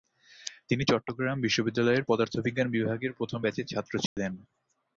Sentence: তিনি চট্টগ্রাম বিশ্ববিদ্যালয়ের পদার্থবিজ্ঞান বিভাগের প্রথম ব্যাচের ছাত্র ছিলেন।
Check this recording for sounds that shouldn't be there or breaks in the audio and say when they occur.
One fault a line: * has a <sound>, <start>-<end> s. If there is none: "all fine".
* has a dropout, 4.1-4.2 s